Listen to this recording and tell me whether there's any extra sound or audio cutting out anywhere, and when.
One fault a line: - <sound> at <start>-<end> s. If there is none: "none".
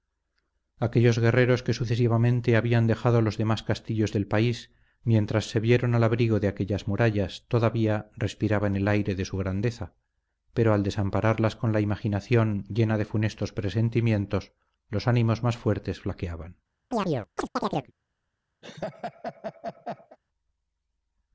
- chirp at 16.9-17.9 s
- laugh at 18.6-20.2 s